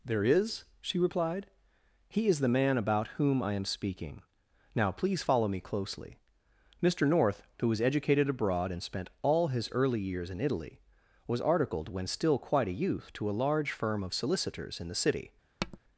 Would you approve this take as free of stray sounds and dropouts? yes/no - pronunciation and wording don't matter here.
no